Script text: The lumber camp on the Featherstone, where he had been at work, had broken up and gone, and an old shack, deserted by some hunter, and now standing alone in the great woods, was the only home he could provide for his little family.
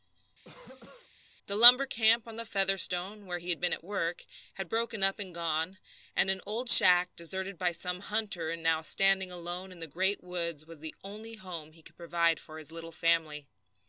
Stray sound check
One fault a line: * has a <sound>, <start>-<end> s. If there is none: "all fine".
* has a cough, 0.4-1.1 s